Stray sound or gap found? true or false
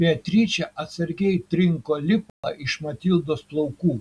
true